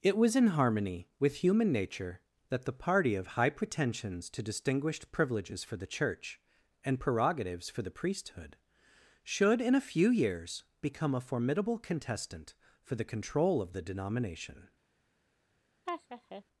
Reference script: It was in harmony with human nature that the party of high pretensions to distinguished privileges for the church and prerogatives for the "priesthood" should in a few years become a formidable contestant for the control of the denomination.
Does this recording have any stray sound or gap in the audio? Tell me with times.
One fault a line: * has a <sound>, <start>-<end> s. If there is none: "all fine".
* has a laugh, 15.9-16.4 s